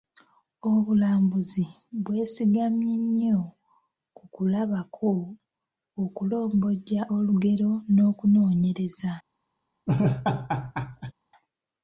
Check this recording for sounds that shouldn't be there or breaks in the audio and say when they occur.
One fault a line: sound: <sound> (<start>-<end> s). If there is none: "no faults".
sound: laugh (9.9-11.1 s)